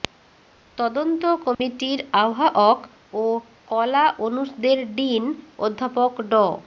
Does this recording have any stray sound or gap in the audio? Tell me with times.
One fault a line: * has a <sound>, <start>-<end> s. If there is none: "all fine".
* has a dropout, 1.5-1.6 s